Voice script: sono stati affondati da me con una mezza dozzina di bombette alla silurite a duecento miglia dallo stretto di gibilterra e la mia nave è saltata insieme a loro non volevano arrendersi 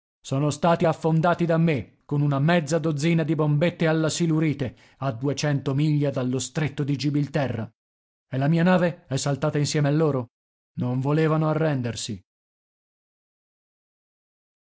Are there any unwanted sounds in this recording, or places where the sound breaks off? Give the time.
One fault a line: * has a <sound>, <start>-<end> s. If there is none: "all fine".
all fine